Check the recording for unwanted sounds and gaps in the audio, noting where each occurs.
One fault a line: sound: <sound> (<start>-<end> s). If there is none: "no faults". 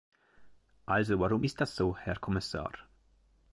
no faults